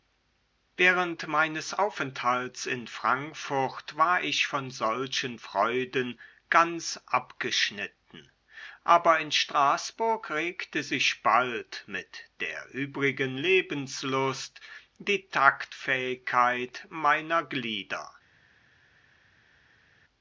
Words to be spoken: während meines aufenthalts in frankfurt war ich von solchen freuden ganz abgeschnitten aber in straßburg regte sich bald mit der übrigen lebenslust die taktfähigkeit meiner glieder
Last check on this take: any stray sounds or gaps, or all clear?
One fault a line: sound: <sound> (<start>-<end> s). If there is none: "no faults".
no faults